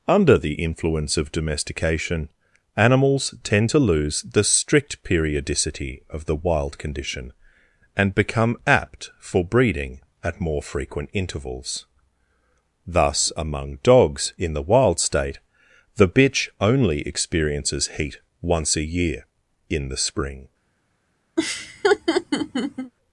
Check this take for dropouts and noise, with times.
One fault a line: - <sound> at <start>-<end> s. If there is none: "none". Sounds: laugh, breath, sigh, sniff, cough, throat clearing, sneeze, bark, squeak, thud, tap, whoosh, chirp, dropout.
- laugh at 21.4-22.9 s